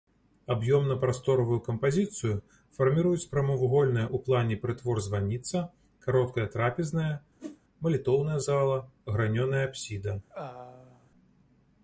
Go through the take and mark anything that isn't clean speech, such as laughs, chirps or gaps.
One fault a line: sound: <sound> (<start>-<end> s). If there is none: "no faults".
sound: whoosh (7.4-7.6 s)
sound: throat clearing (10.3-11.1 s)